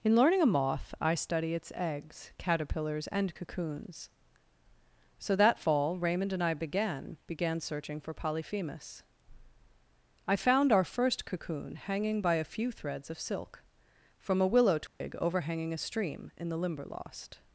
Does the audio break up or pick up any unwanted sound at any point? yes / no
yes